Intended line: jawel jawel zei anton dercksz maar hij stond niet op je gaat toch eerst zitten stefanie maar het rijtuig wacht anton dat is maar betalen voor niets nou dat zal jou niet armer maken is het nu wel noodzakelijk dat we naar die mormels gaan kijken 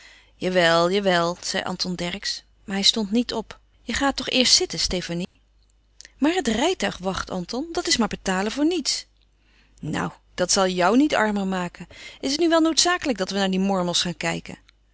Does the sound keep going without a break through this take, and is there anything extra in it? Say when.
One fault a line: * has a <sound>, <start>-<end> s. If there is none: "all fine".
* has a dropout, 5.2-5.4 s